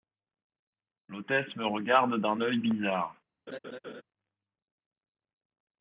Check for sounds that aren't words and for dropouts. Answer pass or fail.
fail